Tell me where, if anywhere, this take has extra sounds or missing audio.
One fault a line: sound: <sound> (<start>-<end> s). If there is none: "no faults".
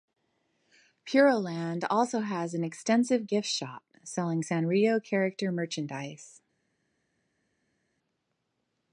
no faults